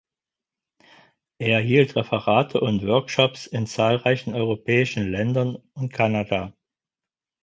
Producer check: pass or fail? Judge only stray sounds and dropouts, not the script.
pass